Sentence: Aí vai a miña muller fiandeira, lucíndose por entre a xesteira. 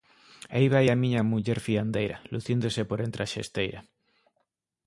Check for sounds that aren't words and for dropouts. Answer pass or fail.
pass